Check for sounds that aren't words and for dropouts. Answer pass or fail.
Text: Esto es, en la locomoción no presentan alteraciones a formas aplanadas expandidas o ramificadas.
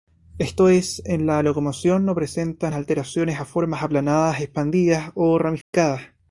fail